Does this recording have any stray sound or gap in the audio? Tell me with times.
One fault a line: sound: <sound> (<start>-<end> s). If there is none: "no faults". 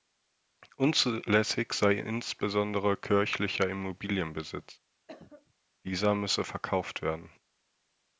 sound: cough (5.1-5.5 s)